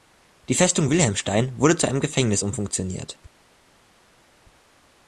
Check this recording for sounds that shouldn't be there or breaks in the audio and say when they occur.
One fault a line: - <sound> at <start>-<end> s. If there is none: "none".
none